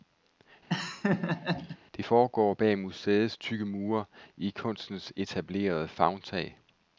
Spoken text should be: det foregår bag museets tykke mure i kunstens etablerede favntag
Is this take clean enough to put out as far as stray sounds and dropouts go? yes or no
no